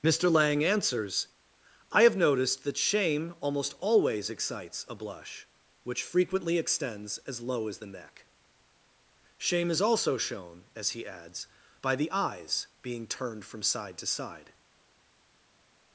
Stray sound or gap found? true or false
false